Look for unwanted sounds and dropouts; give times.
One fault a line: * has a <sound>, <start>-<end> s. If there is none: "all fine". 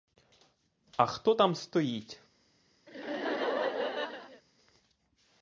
* has a laugh, 2.9-4.4 s